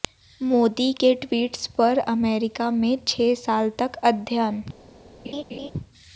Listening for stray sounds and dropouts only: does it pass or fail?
fail